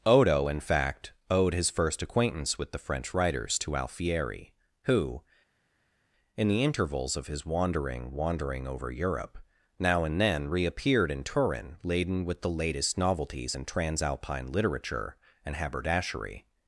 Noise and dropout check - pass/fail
pass